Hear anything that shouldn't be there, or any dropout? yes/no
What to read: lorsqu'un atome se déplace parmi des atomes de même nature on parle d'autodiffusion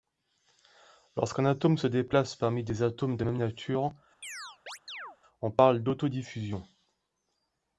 yes